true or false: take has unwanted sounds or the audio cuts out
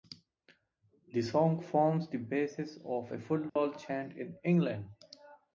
true